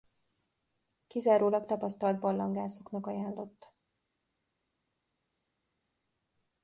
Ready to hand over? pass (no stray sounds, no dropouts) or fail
pass